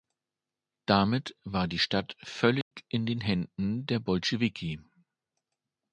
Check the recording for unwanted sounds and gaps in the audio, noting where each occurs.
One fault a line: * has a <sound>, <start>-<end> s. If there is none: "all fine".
* has a dropout, 2.6-2.7 s